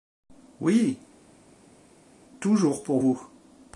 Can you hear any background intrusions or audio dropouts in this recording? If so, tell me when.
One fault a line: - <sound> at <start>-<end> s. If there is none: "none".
none